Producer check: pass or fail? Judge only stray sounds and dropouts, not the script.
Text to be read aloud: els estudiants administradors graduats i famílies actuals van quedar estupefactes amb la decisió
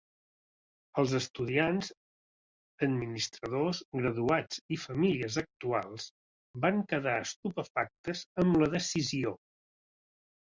pass